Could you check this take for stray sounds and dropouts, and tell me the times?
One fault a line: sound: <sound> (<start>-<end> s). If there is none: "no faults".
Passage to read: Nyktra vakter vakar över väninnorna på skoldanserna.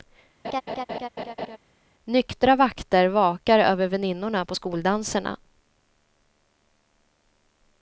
sound: laugh (0.4-1.6 s)